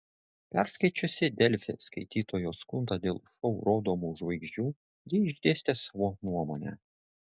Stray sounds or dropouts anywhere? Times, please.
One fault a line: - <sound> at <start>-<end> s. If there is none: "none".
none